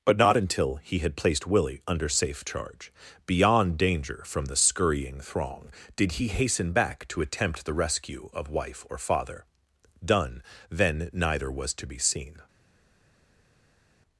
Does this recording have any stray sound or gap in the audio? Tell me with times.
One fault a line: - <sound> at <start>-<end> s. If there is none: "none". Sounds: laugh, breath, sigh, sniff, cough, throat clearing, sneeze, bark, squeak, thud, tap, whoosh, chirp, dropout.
none